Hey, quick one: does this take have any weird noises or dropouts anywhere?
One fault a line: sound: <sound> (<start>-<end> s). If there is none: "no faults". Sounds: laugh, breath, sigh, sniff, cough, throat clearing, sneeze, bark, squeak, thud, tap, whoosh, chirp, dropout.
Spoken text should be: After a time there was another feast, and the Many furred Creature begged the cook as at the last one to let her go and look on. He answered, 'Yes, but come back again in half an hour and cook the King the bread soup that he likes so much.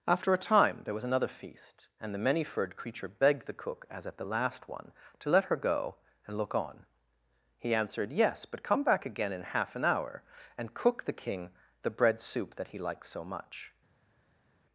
no faults